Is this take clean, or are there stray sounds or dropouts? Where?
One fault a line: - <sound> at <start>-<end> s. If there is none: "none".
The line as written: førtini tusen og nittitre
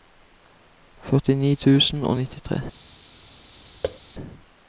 - thud at 3.8-4.0 s